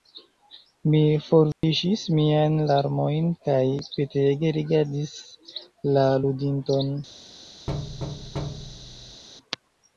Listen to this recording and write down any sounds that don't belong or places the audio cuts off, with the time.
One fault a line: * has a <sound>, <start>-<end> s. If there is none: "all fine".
* has a dropout, 1.5-1.6 s
* has a thud, 7.7-9.2 s